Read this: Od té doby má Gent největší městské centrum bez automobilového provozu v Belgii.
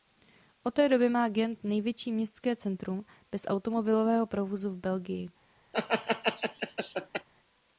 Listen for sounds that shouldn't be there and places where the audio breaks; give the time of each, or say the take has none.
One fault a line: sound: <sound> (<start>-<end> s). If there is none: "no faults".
sound: laugh (5.7-7.3 s)